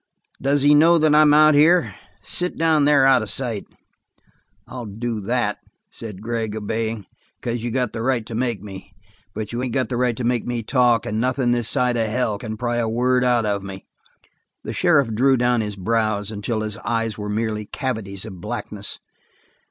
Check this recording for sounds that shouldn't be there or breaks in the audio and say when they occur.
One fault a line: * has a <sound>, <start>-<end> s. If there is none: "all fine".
all fine